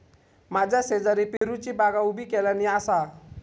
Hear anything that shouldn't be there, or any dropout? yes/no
yes